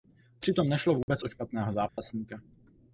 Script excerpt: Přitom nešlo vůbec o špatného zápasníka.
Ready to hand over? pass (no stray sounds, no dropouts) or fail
fail